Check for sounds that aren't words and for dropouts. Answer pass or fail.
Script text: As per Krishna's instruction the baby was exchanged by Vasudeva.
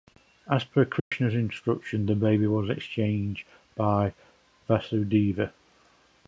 fail